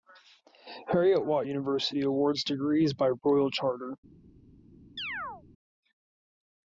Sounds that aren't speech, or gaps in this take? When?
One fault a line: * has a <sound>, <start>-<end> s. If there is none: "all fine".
* has a chirp, 5.0-5.4 s